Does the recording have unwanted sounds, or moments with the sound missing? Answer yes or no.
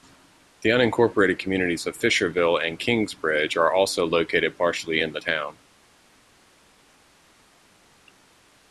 no